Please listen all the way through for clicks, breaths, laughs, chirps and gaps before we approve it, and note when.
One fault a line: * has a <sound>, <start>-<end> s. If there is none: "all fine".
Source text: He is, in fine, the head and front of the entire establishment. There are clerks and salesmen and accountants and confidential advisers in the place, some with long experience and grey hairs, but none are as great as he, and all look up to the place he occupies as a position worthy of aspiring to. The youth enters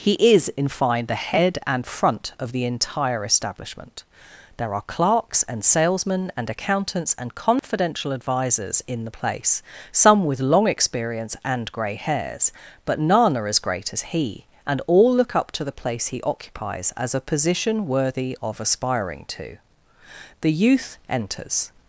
* has a dropout, 7.6-7.6 s